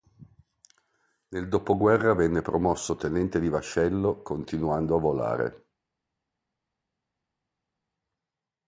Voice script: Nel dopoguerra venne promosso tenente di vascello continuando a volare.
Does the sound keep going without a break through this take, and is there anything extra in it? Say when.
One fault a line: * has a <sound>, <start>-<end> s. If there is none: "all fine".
all fine